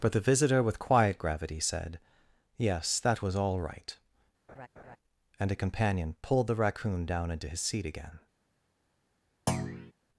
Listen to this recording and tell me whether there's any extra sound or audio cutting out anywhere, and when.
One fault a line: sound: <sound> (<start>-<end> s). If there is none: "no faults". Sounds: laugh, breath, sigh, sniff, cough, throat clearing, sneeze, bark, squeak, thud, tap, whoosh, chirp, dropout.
sound: laugh (4.5-5.0 s)
sound: thud (9.5-9.9 s)